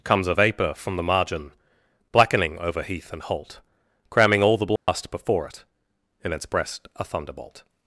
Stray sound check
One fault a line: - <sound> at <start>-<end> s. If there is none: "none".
- dropout at 4.8-4.9 s